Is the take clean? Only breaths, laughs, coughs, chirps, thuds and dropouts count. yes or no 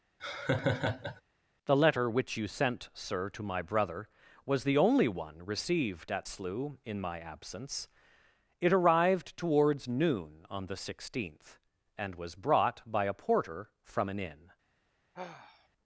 no